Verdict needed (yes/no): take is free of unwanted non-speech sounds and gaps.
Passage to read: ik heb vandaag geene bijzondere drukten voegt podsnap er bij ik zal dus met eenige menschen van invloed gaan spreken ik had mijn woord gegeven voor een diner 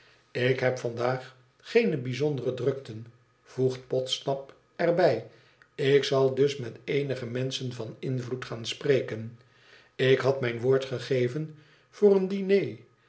yes